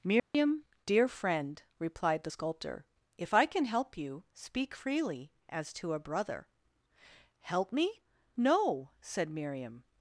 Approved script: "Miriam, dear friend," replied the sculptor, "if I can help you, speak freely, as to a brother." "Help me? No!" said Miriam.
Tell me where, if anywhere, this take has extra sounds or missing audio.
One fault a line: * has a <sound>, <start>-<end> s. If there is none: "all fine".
* has a dropout, 0.2-0.3 s